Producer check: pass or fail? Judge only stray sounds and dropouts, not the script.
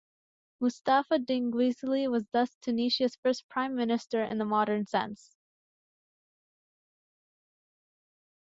pass